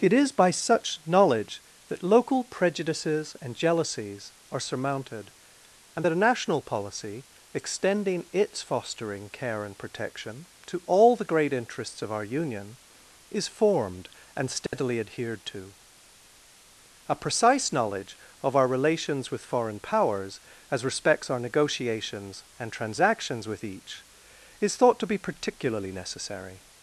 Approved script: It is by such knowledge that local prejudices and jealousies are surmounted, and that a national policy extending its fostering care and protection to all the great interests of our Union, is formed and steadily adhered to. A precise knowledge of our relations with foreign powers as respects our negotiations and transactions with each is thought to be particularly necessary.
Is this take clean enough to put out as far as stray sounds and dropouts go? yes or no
no